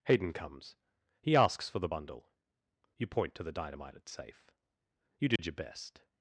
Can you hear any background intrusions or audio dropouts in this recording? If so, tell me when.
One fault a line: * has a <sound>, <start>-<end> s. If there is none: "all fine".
* has a dropout, 5.4-5.4 s